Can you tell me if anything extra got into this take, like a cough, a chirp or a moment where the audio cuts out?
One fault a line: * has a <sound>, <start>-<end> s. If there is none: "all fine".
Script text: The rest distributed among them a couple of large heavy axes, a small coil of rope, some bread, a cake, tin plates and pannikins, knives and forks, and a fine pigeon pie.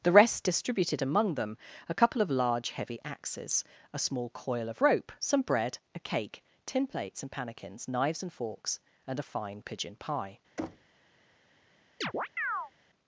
* has a thud, 10.6-11.0 s
* has a chirp, 12.0-12.7 s